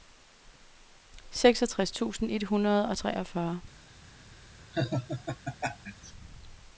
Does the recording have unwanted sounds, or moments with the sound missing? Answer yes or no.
yes